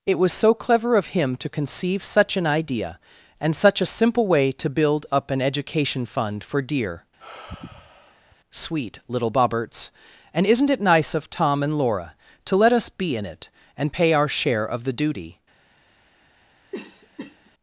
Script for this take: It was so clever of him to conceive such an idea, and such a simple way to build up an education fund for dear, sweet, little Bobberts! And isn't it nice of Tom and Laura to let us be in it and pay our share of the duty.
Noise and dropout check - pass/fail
fail